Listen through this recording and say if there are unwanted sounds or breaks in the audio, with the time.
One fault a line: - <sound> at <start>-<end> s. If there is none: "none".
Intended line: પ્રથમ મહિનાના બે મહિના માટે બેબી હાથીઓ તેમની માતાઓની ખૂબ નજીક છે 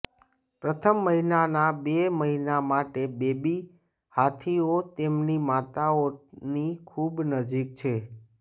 none